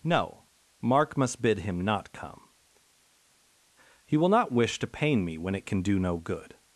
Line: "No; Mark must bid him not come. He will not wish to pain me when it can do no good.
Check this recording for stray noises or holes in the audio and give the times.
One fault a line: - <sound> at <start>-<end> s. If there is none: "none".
none